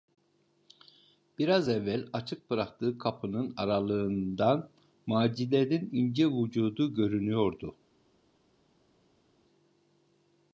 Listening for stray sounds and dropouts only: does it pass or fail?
pass